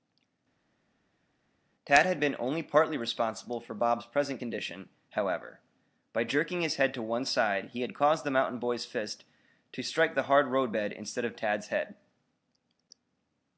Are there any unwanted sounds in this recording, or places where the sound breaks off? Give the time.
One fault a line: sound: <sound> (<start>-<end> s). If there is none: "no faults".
no faults